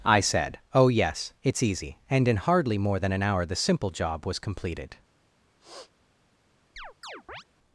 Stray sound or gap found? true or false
true